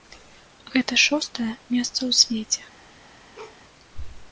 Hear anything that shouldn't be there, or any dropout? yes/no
yes